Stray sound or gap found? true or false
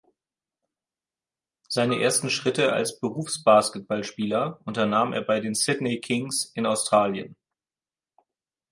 false